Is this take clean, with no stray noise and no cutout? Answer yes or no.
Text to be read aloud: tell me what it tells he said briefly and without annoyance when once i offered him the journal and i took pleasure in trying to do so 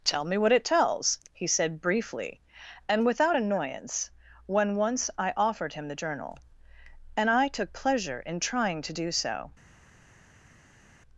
yes